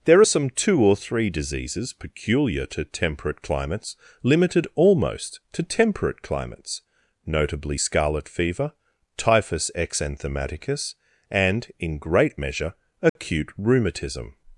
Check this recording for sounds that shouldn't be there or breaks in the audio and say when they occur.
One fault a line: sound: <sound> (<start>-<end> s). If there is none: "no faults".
sound: dropout (13.1-13.2 s)